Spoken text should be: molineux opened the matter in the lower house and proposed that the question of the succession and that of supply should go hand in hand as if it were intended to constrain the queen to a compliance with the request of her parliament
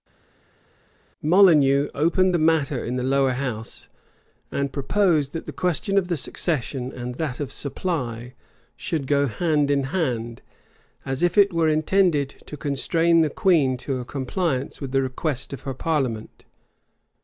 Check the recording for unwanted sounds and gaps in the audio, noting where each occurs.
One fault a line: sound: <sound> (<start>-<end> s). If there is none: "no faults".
no faults